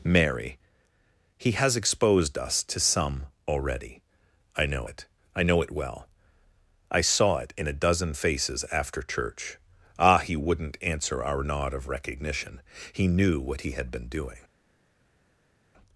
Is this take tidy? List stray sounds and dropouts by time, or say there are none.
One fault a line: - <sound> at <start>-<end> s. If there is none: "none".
none